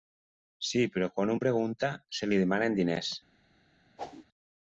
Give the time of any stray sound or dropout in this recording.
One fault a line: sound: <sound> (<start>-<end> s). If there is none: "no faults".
sound: whoosh (4.0-4.3 s)